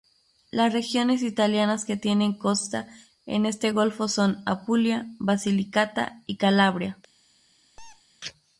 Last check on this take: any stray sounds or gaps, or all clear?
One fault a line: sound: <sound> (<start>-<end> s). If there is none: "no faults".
sound: squeak (7.8-8.0 s)